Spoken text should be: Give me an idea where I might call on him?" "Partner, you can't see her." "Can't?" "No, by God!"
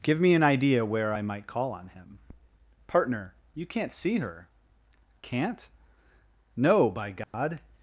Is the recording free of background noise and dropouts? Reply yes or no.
no